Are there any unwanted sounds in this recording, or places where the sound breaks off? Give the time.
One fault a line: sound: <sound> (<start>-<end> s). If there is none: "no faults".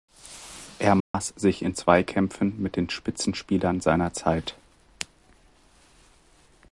sound: dropout (1.0-1.1 s)